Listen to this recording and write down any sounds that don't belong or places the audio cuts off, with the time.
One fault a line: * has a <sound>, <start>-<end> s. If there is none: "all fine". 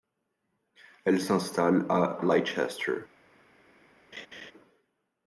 * has a laugh, 4.1-4.5 s